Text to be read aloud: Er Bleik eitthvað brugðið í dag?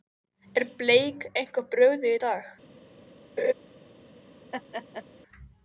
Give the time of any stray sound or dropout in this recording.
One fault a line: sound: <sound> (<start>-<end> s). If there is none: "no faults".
sound: laugh (3.4-3.5 s)
sound: laugh (4.5-5.1 s)